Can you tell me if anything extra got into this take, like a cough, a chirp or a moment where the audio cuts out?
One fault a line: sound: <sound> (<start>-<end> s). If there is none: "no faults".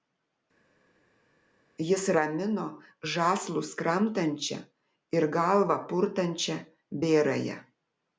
no faults